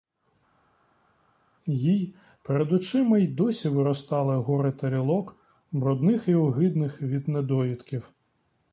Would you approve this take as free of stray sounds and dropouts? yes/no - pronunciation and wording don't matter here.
yes